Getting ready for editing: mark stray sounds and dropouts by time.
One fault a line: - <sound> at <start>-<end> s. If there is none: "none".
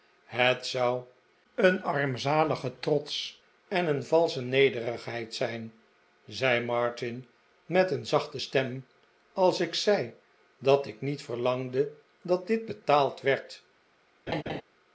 - laugh at 14.3-14.6 s